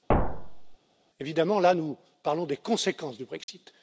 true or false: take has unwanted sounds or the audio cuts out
true